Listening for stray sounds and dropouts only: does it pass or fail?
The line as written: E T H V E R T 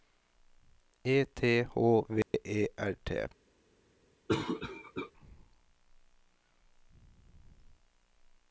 fail